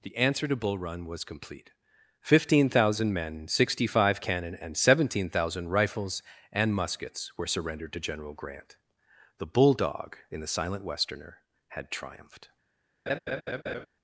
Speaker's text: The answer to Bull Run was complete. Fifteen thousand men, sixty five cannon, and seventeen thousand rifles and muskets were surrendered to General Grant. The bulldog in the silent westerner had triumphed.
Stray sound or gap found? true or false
true